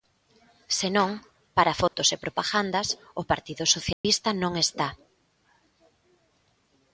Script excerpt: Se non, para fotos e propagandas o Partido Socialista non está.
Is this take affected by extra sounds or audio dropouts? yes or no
yes